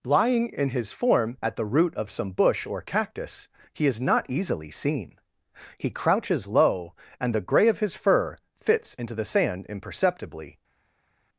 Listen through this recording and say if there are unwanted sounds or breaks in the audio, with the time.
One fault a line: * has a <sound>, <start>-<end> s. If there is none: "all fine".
all fine